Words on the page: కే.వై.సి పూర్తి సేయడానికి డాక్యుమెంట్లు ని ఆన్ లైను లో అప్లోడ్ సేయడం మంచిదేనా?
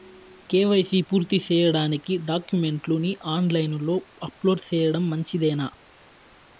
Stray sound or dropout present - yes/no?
no